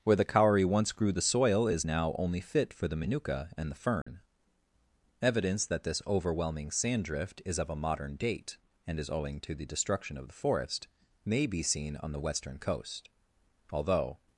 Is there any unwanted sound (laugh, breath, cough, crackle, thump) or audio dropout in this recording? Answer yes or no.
yes